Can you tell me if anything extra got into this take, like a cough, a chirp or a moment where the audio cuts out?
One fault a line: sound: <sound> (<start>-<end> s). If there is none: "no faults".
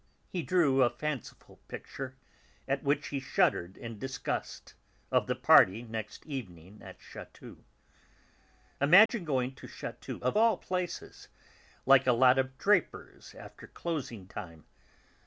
sound: dropout (9.1-9.1 s)